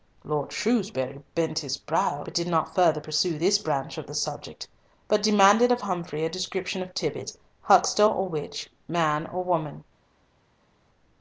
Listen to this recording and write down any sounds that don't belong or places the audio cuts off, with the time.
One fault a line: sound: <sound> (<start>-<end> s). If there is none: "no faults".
no faults